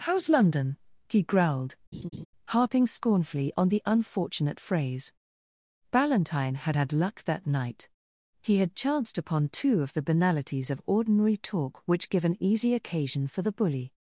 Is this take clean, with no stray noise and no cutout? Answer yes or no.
no